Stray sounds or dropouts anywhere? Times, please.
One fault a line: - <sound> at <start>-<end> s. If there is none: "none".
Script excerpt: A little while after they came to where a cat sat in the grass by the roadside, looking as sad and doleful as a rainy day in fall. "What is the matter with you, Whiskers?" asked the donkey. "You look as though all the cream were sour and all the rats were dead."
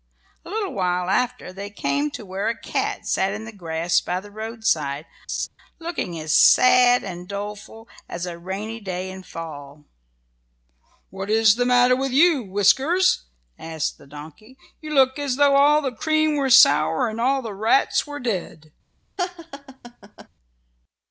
- laugh at 5.3-5.5 s
- laugh at 19.2-20.3 s